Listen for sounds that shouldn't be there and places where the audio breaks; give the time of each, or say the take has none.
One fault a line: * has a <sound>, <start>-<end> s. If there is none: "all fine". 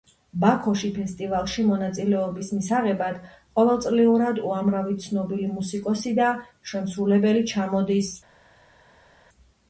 all fine